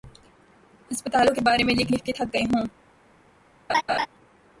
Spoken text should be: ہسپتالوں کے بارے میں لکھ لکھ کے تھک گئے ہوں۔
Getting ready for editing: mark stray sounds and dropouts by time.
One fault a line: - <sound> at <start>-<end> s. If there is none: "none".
- laugh at 3.7-4.1 s